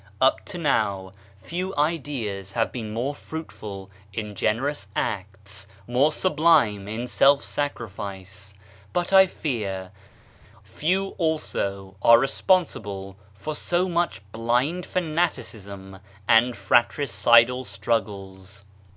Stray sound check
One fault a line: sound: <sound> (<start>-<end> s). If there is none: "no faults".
no faults